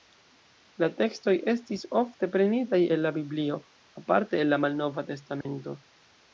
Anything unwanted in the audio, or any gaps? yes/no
yes